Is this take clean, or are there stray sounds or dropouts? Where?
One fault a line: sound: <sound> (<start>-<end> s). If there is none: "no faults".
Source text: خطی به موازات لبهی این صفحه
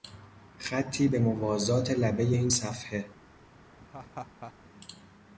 sound: laugh (3.8-4.5 s)